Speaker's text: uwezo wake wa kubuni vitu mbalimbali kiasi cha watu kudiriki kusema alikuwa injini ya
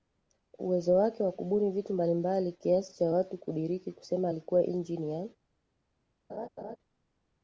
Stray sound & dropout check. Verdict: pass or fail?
fail